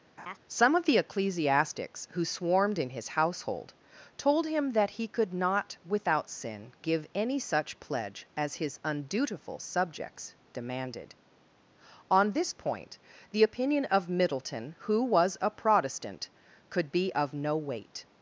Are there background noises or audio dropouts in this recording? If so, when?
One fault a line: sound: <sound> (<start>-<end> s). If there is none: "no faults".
sound: laugh (0.2-0.4 s)